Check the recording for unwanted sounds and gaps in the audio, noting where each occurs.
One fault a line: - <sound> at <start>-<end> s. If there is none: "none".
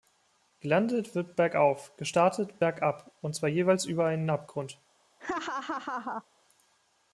- laugh at 5.2-6.2 s